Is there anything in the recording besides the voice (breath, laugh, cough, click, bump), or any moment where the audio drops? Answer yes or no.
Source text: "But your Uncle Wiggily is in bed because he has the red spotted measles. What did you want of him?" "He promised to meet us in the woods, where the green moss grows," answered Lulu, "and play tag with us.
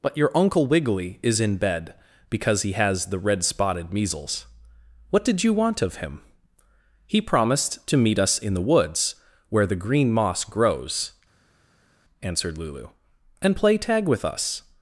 no